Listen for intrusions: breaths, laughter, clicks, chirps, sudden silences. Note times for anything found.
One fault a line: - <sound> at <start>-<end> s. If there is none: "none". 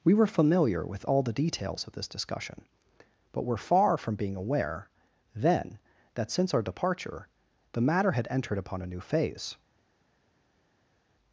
none